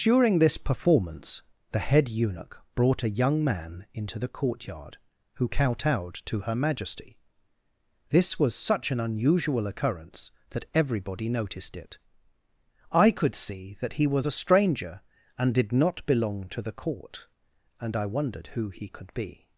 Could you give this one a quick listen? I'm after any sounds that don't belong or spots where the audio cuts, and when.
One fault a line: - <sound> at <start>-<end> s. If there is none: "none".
none